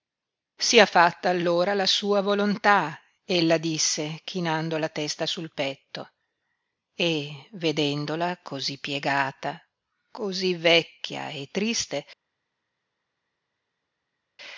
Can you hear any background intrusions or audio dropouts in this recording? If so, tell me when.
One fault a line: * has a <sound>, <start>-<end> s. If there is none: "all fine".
all fine